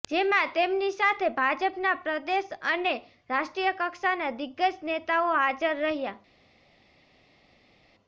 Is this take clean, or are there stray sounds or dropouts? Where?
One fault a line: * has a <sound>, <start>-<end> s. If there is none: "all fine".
all fine